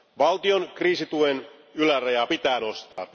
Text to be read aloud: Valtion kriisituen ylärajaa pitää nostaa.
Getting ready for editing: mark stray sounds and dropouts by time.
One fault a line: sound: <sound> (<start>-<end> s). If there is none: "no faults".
sound: dropout (2.9-3.0 s)